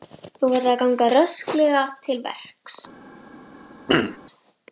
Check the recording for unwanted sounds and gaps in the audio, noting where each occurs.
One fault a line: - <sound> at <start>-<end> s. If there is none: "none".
- throat clearing at 3.9-4.2 s